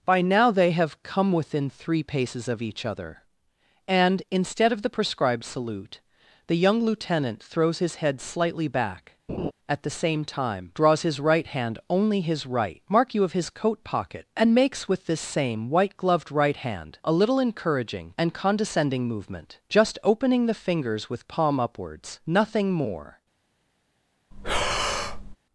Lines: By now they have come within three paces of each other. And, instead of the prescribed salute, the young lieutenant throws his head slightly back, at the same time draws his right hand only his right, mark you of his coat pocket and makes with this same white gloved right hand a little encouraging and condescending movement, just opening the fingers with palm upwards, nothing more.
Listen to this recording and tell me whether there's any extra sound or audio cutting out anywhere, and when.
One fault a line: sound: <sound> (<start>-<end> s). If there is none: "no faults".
sound: laugh (9.3-9.5 s)
sound: breath (24.3-25.4 s)